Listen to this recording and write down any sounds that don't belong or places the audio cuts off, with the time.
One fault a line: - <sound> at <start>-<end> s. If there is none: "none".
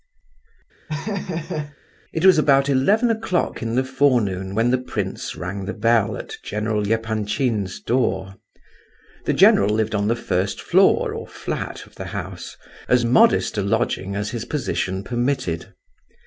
- laugh at 0.9-1.8 s